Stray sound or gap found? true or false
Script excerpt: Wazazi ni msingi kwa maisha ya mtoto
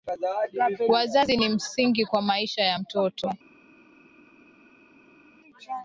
false